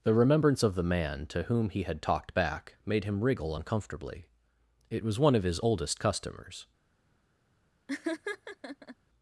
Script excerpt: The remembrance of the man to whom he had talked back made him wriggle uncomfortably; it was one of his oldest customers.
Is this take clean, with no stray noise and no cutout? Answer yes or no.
no